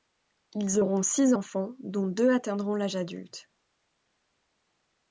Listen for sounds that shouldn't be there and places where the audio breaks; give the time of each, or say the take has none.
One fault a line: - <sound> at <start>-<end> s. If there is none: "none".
none